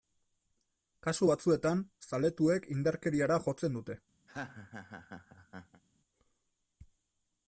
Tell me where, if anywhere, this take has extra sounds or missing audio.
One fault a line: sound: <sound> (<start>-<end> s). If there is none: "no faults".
sound: laugh (4.3-5.8 s)